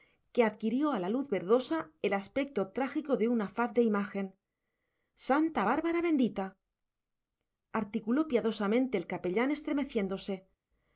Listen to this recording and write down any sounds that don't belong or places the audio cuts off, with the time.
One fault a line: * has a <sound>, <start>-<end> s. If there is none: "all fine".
all fine